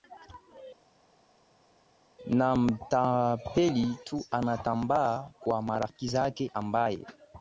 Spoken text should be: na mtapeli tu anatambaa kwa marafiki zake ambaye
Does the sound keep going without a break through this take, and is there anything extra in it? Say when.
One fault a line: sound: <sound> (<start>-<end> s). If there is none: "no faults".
no faults